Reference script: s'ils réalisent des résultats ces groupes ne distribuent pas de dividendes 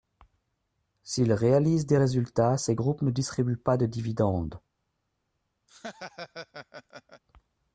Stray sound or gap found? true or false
true